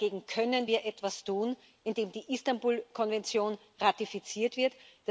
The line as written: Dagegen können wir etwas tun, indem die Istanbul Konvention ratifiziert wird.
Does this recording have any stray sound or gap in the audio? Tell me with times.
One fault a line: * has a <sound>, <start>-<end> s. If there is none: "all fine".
all fine